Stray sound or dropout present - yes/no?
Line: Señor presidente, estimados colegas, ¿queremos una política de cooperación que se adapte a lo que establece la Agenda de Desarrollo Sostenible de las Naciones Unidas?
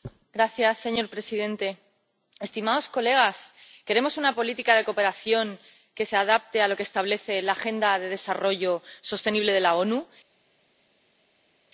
no